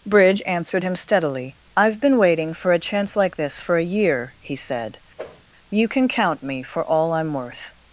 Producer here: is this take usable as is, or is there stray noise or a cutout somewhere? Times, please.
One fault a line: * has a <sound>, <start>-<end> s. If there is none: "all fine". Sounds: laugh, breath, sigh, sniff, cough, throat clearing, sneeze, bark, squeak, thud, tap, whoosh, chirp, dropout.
* has a whoosh, 5.2-5.4 s